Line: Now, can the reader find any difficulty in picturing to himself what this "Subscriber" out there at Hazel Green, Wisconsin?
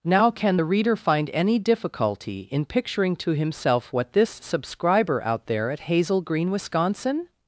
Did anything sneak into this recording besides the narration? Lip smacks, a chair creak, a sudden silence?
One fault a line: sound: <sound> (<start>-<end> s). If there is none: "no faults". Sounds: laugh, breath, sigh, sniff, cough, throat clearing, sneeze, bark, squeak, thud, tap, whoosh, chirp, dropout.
no faults